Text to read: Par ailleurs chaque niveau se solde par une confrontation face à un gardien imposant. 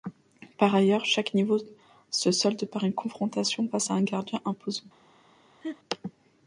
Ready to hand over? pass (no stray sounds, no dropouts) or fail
fail